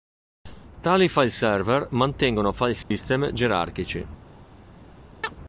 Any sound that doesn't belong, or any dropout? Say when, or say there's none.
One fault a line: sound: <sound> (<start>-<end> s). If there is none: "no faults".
sound: dropout (2.8-2.9 s)
sound: chirp (5.2-5.3 s)